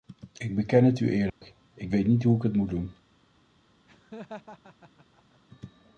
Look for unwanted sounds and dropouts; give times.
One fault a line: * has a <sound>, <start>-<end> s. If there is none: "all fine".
* has a dropout, 1.3-1.4 s
* has a laugh, 3.9-5.4 s